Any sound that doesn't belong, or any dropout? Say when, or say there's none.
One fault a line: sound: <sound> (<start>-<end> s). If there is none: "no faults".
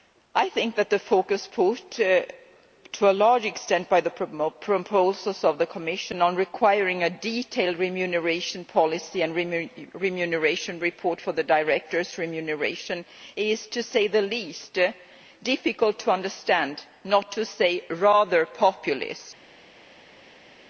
no faults